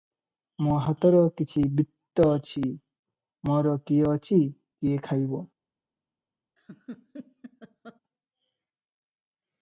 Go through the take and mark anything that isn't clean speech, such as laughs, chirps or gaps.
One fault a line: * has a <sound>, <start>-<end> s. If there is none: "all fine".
* has a laugh, 6.6-8.0 s